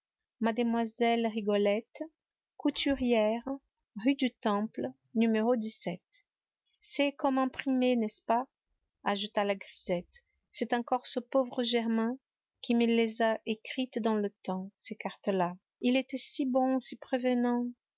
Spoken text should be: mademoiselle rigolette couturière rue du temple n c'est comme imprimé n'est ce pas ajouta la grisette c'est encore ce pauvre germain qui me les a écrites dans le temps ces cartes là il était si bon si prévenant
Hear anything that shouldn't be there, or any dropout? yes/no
no